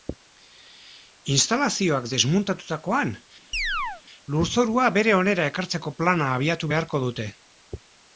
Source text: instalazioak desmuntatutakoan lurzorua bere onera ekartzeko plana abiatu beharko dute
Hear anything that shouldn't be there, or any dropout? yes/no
yes